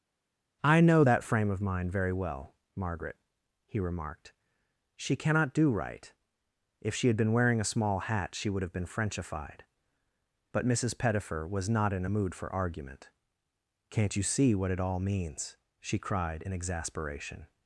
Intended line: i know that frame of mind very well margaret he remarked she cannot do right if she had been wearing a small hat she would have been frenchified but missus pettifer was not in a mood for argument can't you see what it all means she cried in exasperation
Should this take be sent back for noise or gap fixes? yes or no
no